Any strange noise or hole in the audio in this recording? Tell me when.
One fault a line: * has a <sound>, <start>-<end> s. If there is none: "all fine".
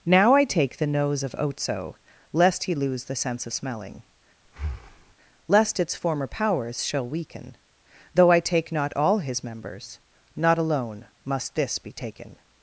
* has a breath, 4.4-5.1 s